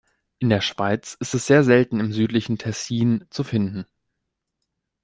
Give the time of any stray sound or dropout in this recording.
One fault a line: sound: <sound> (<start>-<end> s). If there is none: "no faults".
no faults